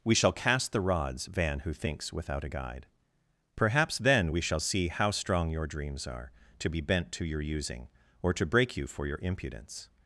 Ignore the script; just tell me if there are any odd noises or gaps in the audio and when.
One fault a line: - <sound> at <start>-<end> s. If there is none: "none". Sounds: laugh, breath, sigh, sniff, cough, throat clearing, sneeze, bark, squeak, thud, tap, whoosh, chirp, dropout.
none